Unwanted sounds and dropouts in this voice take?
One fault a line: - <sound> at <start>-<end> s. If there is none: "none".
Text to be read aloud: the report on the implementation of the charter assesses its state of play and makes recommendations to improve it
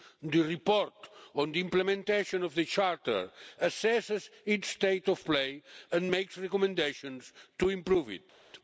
none